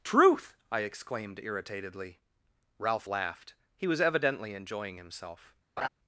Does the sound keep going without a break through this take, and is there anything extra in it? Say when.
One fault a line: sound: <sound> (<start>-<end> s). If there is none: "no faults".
sound: laugh (5.8-5.9 s)